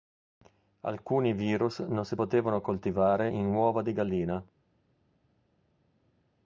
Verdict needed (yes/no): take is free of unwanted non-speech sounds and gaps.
yes